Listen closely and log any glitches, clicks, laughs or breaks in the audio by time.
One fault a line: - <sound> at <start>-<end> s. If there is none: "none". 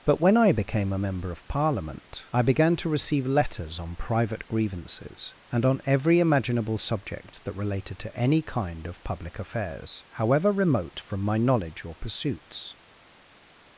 none